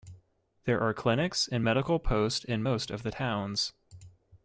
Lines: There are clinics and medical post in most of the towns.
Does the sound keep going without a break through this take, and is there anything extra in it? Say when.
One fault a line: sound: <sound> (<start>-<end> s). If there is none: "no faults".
no faults